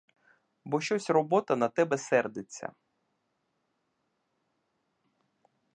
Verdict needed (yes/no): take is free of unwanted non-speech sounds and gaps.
yes